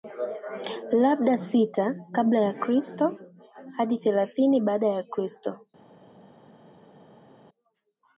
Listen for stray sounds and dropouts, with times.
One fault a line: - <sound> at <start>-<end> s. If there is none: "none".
none